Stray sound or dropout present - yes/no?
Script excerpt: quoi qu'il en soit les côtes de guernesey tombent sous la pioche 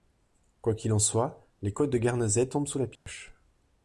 yes